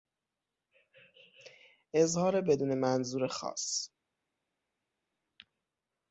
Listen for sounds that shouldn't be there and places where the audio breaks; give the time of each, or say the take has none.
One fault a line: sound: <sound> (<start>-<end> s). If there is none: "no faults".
no faults